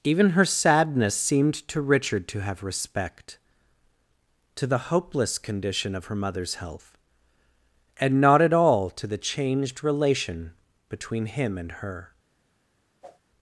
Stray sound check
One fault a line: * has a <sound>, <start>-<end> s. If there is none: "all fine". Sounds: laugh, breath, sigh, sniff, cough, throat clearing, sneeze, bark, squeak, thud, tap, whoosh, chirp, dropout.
* has a whoosh, 13.0-13.2 s